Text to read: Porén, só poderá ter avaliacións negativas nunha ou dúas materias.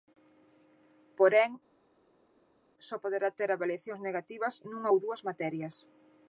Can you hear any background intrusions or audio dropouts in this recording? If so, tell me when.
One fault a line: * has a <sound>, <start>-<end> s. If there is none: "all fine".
all fine